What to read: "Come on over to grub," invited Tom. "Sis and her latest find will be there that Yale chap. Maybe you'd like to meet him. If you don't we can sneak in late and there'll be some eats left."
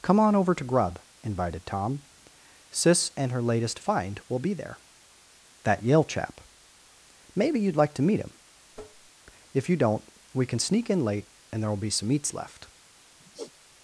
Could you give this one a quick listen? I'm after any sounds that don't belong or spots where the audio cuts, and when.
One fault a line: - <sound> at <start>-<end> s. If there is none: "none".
- tap at 8.7-9.1 s
- sigh at 13.2-13.5 s